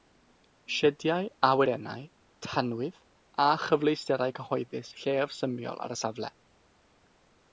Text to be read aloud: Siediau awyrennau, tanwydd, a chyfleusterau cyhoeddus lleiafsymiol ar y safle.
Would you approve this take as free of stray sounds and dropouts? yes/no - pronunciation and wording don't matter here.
yes